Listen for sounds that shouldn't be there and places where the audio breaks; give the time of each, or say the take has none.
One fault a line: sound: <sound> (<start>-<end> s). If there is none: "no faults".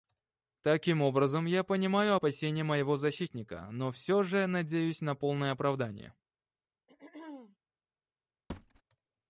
sound: throat clearing (6.9-7.6 s)
sound: thud (8.5-8.8 s)